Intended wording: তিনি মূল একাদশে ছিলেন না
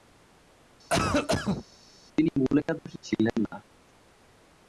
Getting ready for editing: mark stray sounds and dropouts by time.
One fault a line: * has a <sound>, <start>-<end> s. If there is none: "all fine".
* has a cough, 0.9-1.7 s